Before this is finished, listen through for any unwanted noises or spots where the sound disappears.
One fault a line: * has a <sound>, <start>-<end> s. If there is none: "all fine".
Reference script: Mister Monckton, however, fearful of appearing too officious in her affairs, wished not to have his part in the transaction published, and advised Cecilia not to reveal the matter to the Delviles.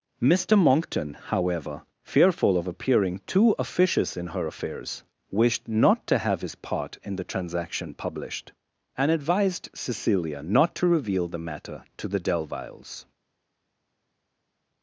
all fine